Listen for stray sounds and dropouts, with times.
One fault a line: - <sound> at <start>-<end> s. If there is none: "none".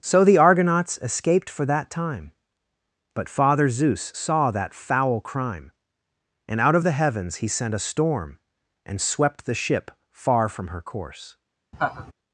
- laugh at 11.7-12.1 s